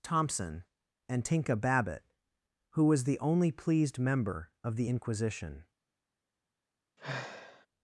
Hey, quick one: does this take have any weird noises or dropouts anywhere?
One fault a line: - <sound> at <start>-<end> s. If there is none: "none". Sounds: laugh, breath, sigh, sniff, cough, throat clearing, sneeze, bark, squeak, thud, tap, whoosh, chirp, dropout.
- sigh at 7.0-7.7 s